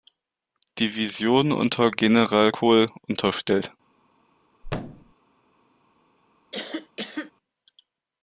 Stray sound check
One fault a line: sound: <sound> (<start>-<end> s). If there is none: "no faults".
sound: thud (4.6-5.1 s)
sound: cough (6.5-7.3 s)